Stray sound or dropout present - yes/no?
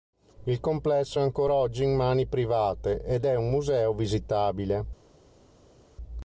no